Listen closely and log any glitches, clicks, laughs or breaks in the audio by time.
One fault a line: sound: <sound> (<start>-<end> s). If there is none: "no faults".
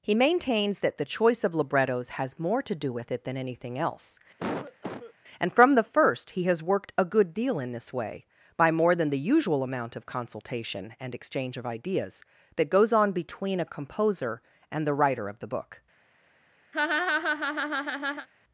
sound: cough (4.4-5.1 s)
sound: laugh (16.7-18.3 s)